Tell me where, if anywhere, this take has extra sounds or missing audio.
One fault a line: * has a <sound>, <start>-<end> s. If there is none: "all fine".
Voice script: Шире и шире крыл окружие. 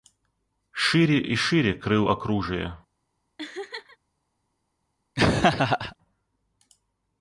* has a laugh, 3.4-4.0 s
* has a laugh, 5.2-6.0 s